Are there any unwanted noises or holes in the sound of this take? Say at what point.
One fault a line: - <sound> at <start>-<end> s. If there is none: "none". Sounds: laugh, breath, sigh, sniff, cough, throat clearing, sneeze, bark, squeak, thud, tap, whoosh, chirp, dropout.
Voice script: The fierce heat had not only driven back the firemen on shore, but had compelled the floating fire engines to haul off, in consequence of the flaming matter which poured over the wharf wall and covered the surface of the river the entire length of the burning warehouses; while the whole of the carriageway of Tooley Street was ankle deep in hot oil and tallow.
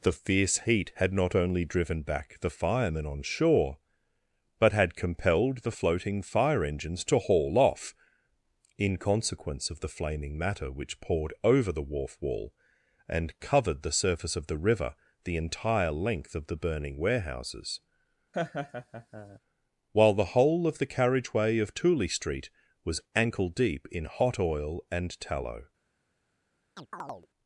- laugh at 18.3-19.4 s
- chirp at 26.8-27.3 s